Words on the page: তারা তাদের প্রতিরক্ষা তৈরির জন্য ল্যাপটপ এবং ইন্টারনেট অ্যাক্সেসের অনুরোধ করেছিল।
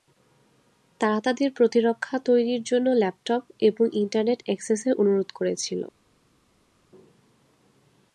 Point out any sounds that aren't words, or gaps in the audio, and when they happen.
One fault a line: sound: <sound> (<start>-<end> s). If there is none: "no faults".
no faults